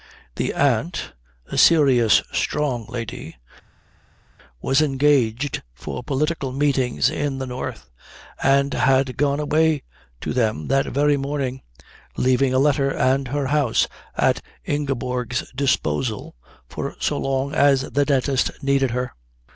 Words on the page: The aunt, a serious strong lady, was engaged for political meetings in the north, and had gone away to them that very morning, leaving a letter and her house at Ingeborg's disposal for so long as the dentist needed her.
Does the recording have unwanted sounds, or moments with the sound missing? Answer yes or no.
no